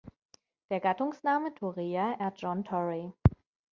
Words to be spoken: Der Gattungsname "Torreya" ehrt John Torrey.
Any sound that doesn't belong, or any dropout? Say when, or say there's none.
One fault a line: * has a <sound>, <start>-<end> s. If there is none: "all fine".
all fine